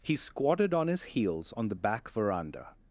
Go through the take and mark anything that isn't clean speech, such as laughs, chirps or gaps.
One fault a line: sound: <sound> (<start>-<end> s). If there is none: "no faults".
no faults